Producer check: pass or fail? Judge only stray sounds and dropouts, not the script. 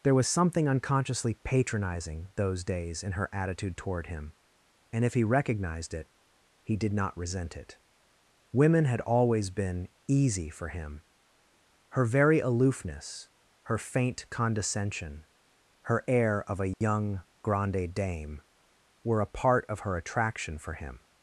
fail